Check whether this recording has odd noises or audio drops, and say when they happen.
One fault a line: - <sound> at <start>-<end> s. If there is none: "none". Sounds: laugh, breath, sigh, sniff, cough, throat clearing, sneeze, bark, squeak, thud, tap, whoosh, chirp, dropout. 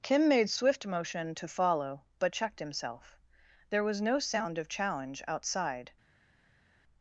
none